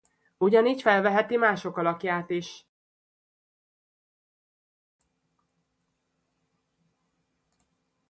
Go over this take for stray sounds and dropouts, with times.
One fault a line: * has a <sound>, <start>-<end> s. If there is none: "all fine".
all fine